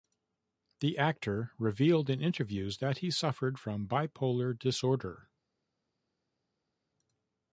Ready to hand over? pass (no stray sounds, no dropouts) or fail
pass